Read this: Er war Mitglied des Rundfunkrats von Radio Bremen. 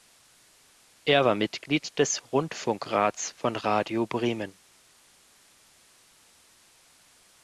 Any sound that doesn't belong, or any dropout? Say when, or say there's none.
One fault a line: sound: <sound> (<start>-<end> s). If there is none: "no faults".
no faults